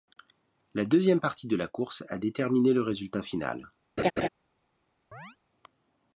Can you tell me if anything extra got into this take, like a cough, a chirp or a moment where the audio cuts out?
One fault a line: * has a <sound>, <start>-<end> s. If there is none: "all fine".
* has a laugh, 4.0-4.3 s
* has a chirp, 5.1-5.4 s